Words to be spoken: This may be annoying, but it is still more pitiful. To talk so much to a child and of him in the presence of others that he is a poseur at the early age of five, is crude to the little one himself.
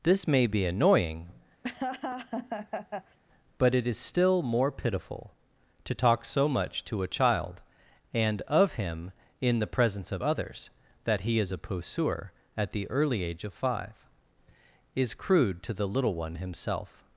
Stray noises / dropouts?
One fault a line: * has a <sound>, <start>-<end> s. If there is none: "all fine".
* has a laugh, 1.6-3.2 s